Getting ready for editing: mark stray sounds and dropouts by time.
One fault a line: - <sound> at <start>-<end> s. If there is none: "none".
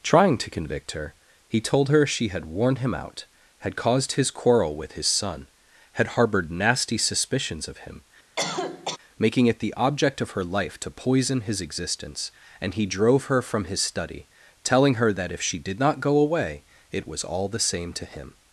- cough at 8.4-9.0 s